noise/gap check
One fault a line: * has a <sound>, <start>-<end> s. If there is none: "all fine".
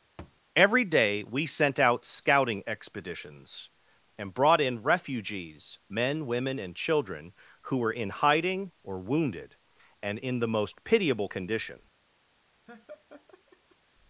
* has a thud, 0.2-0.4 s
* has a laugh, 12.7-13.8 s